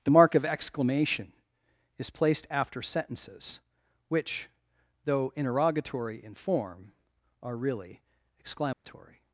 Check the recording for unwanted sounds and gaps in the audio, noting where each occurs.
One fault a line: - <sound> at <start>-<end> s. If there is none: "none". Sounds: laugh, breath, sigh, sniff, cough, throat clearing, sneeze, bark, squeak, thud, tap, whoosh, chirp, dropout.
- dropout at 8.7-8.8 s